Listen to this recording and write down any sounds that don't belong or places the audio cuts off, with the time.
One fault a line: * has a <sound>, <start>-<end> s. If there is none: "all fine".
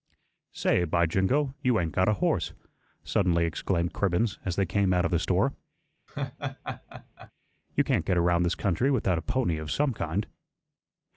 * has a laugh, 6.1-7.3 s